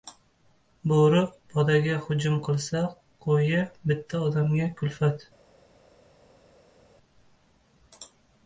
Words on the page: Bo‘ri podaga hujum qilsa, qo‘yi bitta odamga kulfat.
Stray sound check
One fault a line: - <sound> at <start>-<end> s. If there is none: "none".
none